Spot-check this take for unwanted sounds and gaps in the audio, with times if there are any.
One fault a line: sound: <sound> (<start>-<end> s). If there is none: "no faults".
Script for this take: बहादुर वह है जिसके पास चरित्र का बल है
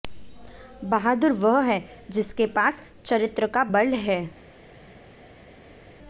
no faults